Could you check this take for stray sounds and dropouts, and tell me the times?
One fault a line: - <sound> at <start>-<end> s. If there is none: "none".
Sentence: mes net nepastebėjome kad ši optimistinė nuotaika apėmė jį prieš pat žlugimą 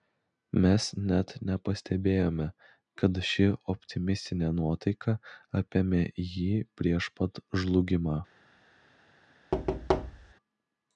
- thud at 9.5-10.3 s